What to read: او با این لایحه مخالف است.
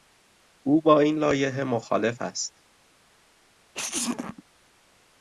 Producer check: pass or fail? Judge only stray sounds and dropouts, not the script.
fail